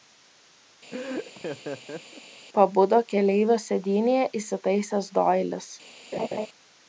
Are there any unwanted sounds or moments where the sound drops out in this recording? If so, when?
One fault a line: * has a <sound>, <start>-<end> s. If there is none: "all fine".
* has a laugh, 0.9-2.2 s
* has a laugh, 6.1-6.5 s